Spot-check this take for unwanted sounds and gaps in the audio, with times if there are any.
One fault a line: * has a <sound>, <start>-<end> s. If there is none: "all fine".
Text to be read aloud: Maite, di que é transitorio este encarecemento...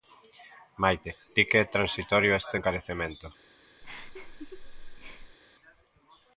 * has a laugh, 3.8-5.4 s